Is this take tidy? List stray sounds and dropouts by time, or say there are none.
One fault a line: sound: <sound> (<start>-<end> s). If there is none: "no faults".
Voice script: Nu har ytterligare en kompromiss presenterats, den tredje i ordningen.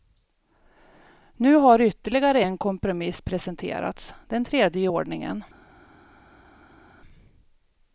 no faults